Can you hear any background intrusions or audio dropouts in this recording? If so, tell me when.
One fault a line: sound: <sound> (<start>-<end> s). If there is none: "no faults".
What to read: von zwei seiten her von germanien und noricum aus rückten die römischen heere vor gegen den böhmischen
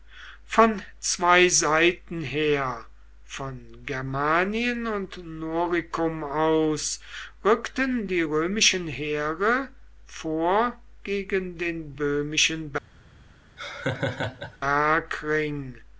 sound: laugh (13.6-14.6 s)